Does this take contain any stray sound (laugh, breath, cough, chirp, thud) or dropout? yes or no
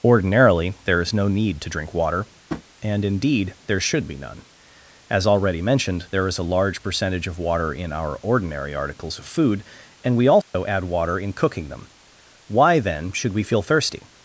yes